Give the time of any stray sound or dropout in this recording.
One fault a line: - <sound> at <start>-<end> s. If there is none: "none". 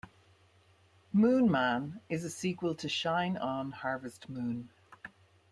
none